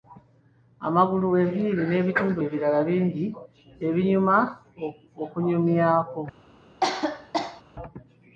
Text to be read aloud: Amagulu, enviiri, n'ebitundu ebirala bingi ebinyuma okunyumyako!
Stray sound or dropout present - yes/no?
yes